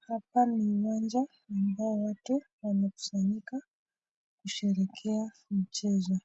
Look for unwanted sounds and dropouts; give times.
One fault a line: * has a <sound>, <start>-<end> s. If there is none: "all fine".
all fine